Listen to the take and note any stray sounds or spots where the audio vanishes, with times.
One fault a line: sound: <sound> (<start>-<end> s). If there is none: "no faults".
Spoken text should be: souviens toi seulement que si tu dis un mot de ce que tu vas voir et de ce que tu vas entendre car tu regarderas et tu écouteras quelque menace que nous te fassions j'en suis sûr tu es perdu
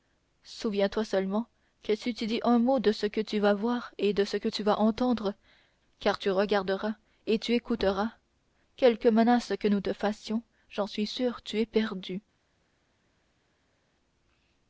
no faults